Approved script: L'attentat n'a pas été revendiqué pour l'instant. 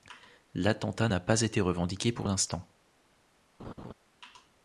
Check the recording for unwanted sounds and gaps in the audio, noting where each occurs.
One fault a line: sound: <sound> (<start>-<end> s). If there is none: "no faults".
sound: laugh (3.6-3.9 s)